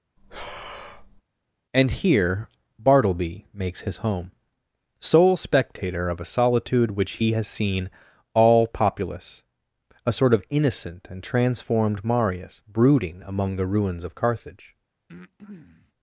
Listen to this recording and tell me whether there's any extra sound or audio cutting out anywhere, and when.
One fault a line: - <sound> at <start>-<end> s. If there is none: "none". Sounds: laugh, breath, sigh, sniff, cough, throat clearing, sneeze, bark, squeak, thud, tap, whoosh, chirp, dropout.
- breath at 0.2-1.2 s
- breath at 15.1-15.9 s